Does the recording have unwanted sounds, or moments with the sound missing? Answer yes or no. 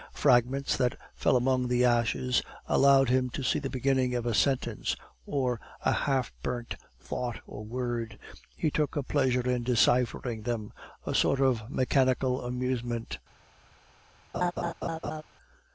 yes